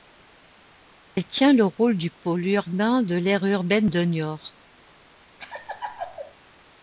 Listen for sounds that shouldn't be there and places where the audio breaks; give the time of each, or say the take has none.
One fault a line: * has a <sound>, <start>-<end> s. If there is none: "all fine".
* has a laugh, 5.4-6.3 s